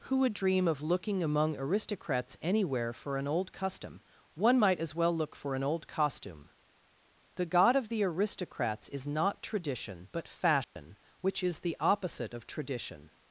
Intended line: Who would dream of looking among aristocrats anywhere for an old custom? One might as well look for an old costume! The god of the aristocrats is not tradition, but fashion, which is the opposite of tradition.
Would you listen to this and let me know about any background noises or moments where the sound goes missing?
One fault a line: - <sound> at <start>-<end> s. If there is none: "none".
- dropout at 10.6-10.8 s